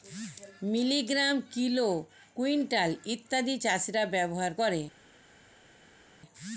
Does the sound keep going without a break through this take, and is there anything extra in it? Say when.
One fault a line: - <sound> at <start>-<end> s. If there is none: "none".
none